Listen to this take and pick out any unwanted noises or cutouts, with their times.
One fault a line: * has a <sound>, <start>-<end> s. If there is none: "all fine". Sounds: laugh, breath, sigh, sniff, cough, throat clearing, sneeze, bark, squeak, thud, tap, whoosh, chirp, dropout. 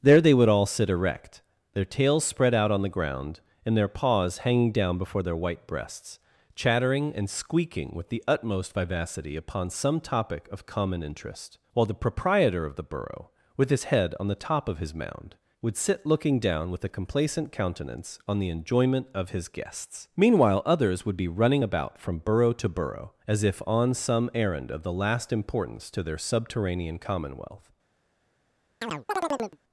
* has a chirp, 28.8-29.6 s